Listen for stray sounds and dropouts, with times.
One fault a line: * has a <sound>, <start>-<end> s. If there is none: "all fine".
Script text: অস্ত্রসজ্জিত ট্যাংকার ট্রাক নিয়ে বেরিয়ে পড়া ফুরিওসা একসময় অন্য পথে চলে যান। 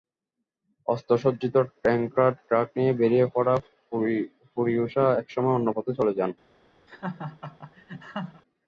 * has a laugh, 6.9-8.4 s